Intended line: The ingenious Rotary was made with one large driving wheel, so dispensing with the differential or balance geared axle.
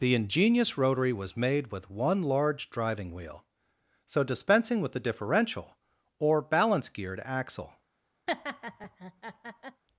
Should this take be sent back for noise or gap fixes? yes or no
yes